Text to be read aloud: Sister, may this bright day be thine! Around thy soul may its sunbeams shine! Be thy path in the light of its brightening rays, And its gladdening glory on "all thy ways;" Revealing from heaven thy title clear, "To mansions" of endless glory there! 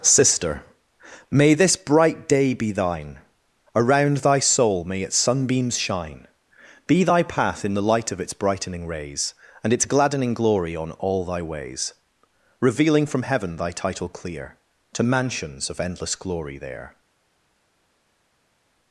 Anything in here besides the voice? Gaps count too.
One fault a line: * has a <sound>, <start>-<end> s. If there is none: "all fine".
all fine